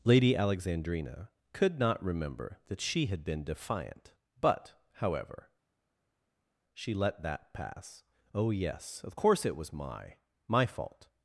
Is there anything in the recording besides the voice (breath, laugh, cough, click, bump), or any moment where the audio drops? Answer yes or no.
no